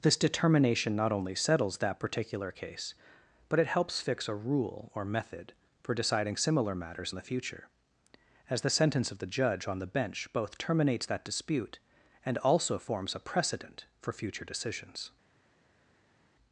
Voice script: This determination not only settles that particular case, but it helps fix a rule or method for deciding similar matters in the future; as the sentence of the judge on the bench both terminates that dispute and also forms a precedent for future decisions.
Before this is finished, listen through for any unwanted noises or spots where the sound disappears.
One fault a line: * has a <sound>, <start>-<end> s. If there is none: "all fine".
all fine